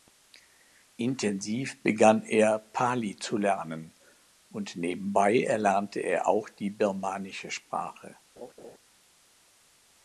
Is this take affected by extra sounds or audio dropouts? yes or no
yes